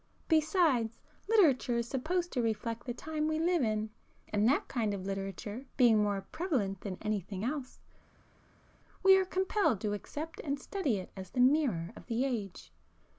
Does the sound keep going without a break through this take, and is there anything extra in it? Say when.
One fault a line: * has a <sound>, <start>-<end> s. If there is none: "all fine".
all fine